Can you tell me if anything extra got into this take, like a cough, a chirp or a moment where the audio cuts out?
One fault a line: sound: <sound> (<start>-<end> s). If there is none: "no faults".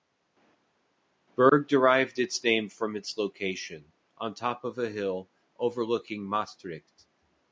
no faults